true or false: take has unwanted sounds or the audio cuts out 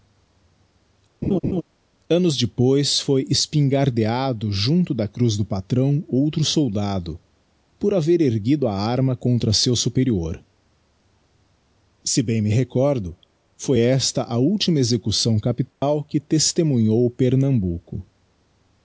true